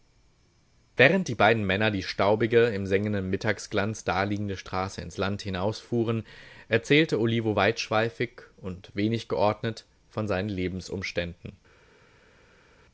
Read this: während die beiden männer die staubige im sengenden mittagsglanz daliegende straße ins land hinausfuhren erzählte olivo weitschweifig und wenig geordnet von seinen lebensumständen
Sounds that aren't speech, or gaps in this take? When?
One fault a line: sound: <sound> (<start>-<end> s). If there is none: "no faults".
no faults